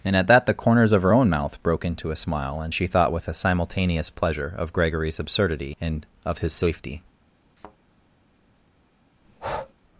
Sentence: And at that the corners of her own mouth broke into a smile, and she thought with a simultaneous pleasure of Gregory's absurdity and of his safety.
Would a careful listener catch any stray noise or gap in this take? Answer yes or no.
yes